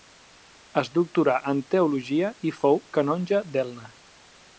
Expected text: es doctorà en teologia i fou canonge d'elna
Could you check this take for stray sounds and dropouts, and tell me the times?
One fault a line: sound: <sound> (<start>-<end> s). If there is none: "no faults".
no faults